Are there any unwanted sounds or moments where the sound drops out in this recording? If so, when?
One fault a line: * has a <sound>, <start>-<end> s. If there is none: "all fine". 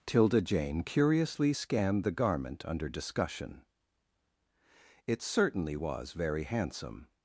all fine